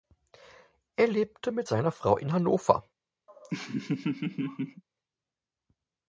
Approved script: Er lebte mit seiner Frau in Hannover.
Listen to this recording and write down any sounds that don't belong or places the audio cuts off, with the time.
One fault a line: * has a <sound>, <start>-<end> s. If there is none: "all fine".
* has a laugh, 3.3-4.8 s